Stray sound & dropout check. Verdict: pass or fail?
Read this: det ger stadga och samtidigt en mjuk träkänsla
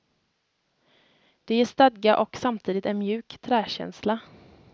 pass